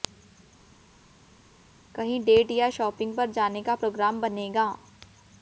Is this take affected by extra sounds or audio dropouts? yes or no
no